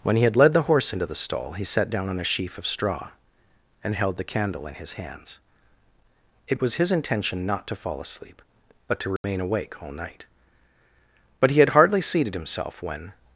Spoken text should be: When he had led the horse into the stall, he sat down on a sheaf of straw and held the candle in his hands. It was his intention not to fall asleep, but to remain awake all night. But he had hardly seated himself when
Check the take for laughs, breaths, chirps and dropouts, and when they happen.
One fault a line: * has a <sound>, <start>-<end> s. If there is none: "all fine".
* has a dropout, 9.2-9.2 s